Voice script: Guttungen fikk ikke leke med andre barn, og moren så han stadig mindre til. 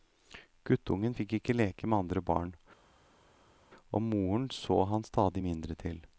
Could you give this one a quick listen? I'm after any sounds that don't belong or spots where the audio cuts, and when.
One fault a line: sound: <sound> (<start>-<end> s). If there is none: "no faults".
no faults